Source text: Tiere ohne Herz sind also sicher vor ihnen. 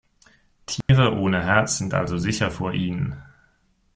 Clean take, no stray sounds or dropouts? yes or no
no